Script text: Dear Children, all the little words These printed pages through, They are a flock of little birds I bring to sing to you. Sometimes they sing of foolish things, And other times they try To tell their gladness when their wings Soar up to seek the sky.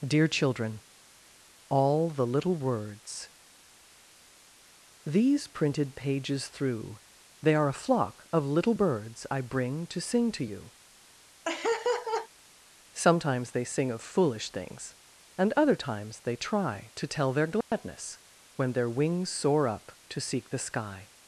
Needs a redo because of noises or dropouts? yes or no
yes